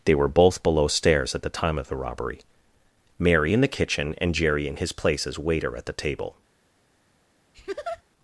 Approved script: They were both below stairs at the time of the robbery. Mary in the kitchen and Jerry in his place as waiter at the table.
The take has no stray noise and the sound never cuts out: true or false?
false